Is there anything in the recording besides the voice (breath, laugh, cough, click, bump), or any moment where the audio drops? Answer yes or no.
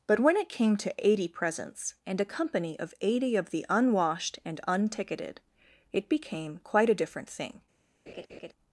yes